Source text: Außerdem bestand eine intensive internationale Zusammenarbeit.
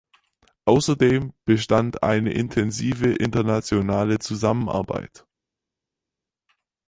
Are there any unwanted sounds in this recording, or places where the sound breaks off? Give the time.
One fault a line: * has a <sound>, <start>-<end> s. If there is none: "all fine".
all fine